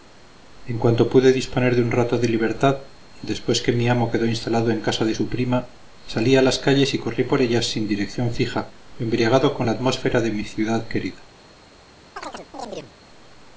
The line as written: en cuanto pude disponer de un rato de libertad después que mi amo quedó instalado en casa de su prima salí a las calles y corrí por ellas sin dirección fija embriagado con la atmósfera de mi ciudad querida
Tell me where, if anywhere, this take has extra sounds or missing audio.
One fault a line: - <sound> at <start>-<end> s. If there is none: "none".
- chirp at 12.2-12.9 s